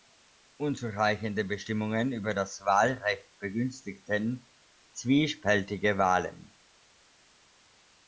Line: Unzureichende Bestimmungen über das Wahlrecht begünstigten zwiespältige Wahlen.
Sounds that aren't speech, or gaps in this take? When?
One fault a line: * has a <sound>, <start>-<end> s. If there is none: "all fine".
all fine